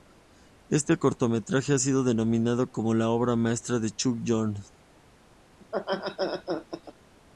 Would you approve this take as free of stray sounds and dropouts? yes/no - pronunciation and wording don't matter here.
no